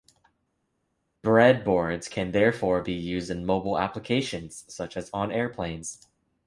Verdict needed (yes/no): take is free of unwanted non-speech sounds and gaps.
yes